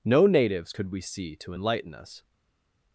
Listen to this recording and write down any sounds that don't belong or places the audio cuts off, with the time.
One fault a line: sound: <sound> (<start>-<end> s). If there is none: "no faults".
no faults